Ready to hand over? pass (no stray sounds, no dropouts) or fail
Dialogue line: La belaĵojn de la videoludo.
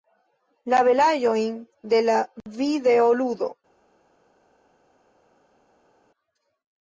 pass